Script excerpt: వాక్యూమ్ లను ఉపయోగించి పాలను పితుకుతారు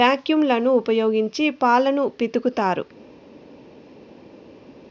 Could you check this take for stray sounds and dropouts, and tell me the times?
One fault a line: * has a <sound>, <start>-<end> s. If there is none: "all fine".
all fine